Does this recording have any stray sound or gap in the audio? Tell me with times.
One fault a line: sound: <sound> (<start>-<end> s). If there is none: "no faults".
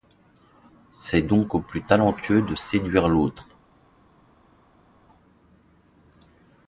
no faults